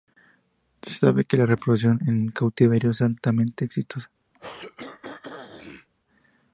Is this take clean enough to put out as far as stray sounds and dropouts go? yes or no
no